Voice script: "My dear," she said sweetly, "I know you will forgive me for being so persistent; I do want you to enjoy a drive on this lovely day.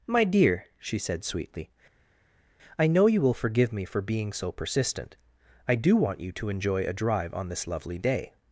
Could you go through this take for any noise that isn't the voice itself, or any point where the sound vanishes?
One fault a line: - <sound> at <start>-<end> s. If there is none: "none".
none